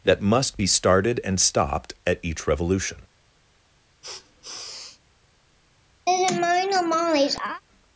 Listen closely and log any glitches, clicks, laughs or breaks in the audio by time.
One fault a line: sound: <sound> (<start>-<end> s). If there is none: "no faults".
sound: sniff (4.0-5.0 s)
sound: laugh (6.1-7.6 s)